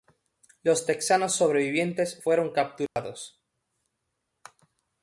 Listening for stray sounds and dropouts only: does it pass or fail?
fail